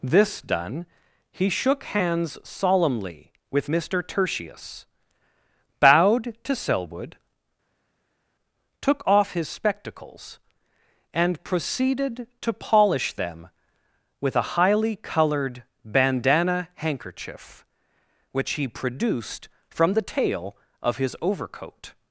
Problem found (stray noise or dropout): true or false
false